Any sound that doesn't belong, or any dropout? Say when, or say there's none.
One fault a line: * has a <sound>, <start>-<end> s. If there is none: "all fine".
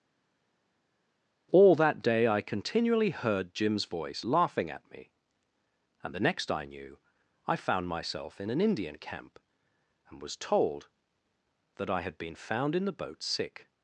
all fine